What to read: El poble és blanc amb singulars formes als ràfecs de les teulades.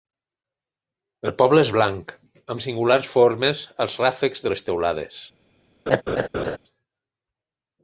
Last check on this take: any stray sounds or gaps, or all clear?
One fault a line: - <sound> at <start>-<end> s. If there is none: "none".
- laugh at 5.9-6.6 s